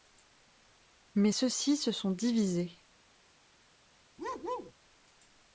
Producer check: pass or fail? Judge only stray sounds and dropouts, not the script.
fail